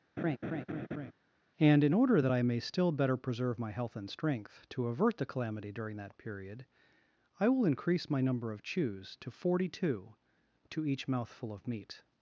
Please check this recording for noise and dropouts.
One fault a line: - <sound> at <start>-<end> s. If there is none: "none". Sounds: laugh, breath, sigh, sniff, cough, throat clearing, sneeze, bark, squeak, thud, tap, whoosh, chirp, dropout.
- laugh at 0.2-1.1 s